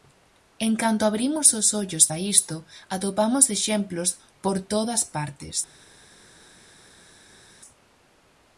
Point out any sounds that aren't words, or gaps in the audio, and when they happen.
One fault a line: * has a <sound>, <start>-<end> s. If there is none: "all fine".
all fine